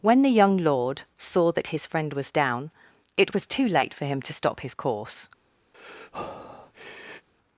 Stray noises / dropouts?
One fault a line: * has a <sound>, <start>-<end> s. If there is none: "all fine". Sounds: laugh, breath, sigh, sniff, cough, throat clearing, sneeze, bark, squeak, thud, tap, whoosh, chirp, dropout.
* has a breath, 5.7-7.3 s